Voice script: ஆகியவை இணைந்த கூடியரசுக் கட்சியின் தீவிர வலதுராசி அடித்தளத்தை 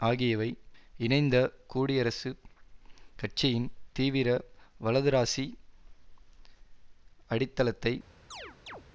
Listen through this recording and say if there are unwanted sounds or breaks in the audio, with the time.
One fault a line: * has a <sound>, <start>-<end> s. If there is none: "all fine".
* has a chirp, 8.3-8.8 s